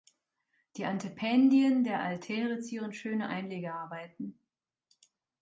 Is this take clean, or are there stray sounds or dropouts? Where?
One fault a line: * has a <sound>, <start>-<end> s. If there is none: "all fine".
all fine